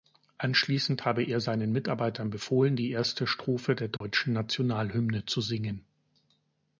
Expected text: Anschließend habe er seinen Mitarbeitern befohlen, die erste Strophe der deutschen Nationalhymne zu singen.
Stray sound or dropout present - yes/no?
yes